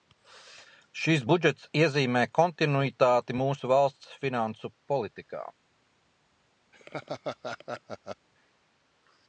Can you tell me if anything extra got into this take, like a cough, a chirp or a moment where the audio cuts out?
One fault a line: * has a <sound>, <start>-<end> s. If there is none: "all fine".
* has a laugh, 6.7-8.3 s